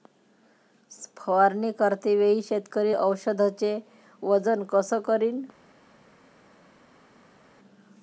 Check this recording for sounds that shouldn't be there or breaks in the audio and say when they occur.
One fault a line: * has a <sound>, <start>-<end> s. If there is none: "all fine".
all fine